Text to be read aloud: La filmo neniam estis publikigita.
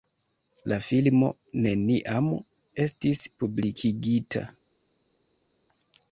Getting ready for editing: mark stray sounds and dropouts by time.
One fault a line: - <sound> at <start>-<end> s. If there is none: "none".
none